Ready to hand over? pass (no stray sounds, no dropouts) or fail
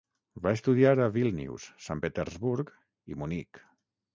pass